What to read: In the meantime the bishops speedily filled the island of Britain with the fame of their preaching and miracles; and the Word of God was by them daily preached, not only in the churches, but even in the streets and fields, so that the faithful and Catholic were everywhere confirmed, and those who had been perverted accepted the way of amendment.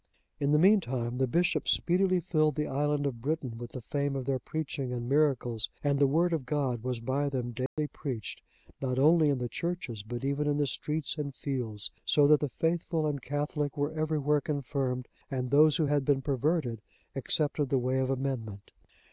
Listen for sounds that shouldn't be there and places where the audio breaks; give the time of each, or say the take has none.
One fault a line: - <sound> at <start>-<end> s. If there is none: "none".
- dropout at 7.7-7.8 s